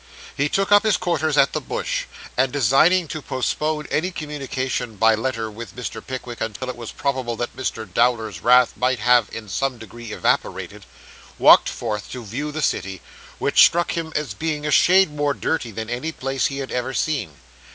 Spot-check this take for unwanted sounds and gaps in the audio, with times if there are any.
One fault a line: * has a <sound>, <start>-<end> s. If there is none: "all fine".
* has a dropout, 6.6-6.6 s